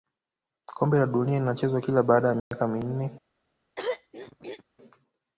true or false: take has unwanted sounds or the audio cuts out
true